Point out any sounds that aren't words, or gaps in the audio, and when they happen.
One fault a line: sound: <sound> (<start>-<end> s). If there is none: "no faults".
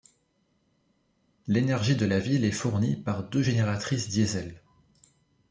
no faults